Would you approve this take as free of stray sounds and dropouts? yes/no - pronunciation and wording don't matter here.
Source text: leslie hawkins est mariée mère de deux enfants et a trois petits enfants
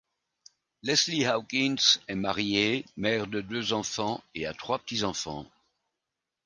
yes